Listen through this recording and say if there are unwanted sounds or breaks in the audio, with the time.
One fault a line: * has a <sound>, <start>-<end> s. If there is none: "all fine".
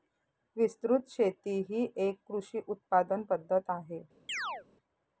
* has a chirp, 4.3-4.7 s